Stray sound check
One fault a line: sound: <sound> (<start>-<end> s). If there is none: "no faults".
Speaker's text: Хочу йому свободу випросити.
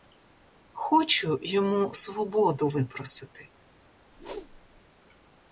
sound: whoosh (4.1-4.8 s)